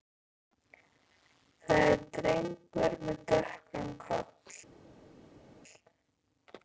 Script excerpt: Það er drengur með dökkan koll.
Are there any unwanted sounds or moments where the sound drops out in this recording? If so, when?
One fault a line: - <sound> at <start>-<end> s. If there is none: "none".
none